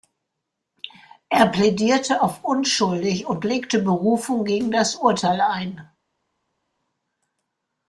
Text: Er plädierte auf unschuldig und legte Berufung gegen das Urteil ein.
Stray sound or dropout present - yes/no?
no